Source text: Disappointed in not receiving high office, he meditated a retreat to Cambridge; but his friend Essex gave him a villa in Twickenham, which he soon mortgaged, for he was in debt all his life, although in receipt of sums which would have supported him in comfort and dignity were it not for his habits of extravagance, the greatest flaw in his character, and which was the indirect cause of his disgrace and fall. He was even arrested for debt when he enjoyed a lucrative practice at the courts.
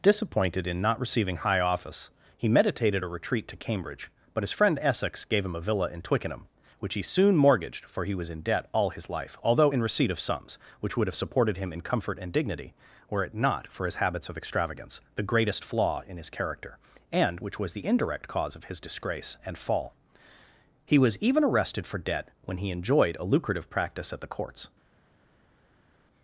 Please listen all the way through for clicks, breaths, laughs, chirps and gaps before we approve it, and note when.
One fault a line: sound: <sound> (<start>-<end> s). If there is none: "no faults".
no faults